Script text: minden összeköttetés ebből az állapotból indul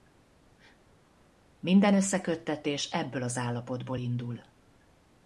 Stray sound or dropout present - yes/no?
no